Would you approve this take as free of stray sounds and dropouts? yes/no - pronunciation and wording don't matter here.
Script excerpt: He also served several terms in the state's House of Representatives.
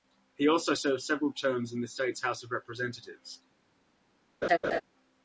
no